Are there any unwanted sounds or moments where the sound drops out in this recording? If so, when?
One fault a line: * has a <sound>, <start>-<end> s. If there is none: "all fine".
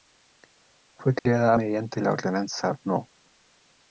* has a dropout, 1.2-1.3 s